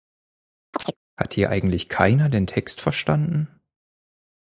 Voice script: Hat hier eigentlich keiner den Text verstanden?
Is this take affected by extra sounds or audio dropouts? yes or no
yes